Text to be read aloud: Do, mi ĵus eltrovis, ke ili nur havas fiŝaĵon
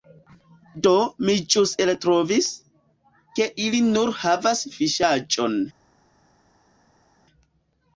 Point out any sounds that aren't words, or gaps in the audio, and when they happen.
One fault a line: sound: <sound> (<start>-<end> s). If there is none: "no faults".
no faults